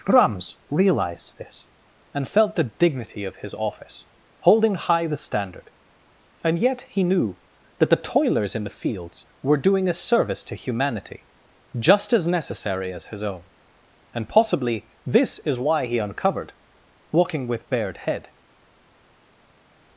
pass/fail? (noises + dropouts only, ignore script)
pass